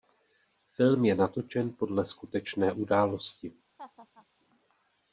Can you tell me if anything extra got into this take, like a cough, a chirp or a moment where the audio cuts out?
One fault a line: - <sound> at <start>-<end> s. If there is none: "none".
- laugh at 3.8-4.3 s